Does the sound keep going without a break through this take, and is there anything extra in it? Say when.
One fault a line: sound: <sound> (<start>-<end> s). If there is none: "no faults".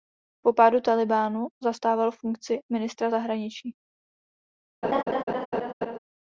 sound: laugh (4.8-6.0 s)